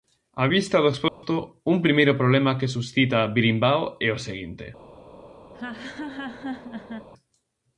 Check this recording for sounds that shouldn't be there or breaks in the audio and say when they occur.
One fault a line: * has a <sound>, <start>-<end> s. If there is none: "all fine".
* has a dropout, 1.1-1.2 s
* has a laugh, 5.5-7.1 s